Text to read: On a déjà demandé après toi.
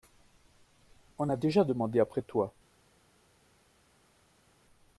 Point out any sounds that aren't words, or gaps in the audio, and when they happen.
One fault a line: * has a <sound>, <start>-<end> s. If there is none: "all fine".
all fine